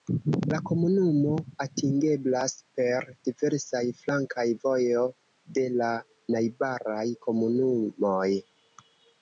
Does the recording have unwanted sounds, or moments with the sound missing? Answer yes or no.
no